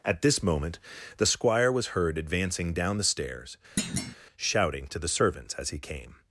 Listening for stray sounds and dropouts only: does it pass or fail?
fail